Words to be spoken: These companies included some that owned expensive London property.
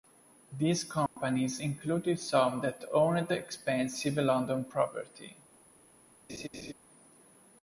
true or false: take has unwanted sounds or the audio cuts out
true